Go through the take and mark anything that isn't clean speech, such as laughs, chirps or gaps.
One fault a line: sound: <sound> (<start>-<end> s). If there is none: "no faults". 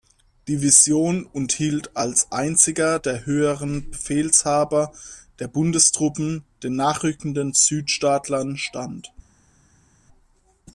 no faults